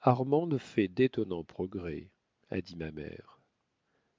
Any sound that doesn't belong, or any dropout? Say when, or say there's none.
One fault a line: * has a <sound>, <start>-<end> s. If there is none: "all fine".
all fine